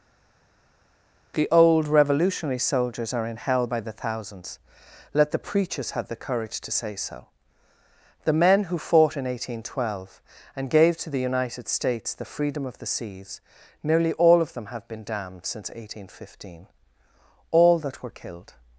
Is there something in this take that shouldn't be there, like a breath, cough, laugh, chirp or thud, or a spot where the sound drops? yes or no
no